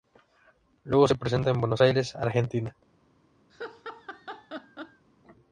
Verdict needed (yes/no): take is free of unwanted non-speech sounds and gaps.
no